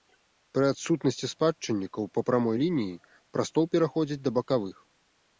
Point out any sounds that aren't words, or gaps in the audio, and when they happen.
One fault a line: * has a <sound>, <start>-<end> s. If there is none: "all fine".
all fine